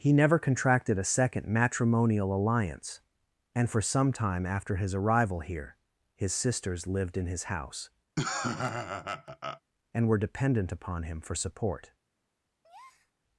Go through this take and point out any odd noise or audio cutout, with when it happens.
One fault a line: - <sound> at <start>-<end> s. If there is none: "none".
- laugh at 8.2-9.6 s
- breath at 12.6-13.1 s